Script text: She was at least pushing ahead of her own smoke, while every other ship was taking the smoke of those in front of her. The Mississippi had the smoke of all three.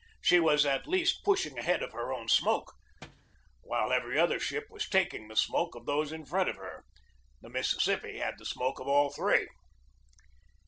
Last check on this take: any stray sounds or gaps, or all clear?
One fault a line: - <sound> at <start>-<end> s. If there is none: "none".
- thud at 3.0-3.3 s